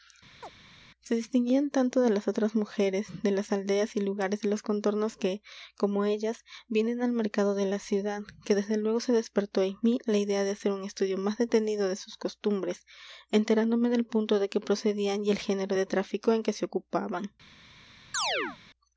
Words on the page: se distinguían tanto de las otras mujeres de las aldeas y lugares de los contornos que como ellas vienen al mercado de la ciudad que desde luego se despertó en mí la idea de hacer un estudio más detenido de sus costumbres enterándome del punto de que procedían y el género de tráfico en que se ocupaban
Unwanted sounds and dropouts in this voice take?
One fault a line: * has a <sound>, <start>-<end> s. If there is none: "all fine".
* has a chirp, 0.4-0.5 s
* has a chirp, 18.1-18.6 s